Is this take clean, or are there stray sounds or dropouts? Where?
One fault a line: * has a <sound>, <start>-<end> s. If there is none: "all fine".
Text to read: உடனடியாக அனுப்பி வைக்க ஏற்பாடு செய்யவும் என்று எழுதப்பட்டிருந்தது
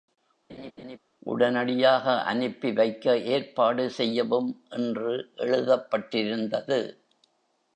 * has a laugh, 0.5-1.0 s